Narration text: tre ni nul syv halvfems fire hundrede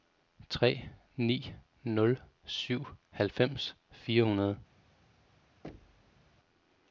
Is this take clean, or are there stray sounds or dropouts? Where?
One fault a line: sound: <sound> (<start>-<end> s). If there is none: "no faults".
sound: thud (5.6-6.3 s)